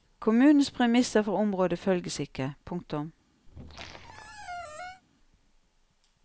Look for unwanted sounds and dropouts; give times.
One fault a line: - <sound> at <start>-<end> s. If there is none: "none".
- squeak at 3.5-5.0 s